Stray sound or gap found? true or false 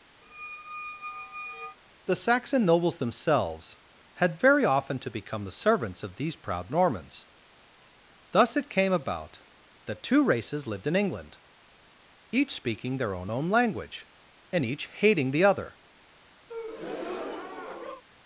true